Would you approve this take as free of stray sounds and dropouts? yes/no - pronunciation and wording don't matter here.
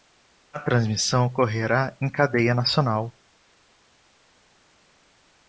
yes